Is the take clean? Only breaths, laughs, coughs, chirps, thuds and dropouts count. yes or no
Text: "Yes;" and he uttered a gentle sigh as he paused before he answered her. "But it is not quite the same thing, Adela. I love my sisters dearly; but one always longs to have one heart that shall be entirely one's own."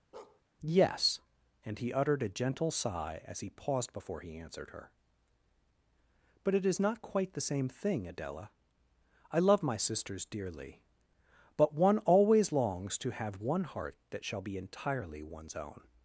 no